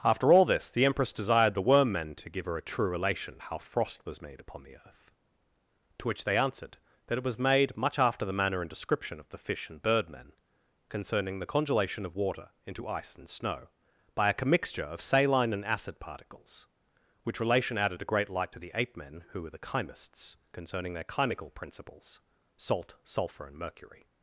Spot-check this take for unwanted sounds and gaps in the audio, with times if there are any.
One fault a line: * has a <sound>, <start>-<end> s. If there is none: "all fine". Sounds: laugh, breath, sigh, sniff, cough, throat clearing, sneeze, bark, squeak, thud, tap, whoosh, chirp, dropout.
all fine